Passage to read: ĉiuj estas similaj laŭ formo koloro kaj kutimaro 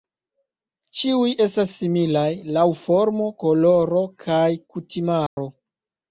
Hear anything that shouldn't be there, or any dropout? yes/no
yes